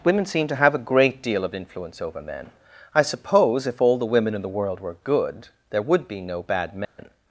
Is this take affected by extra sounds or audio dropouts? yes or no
yes